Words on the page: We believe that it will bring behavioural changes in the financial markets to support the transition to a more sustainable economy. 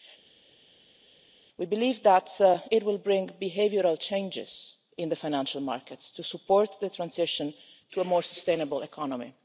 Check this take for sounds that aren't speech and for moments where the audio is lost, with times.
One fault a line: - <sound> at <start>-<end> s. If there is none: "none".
none